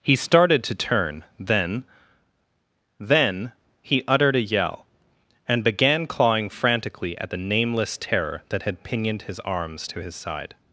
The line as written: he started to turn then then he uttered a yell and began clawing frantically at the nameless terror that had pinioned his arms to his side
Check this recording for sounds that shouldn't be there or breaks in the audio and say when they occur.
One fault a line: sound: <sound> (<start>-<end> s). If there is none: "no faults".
no faults